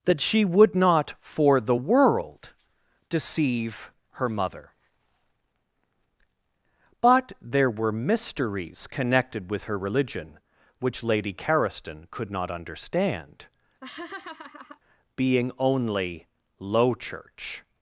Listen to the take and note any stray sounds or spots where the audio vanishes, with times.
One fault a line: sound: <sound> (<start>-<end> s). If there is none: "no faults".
sound: laugh (13.8-14.8 s)